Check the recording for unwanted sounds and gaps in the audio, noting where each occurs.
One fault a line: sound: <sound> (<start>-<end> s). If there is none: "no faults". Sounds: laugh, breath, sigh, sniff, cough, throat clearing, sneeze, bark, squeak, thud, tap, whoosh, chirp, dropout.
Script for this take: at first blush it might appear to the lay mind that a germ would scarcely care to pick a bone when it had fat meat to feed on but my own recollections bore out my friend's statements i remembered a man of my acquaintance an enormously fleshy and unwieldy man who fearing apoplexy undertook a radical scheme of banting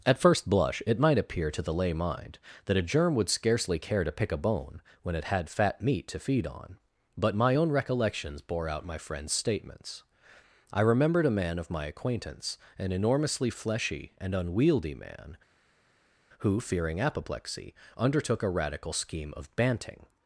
no faults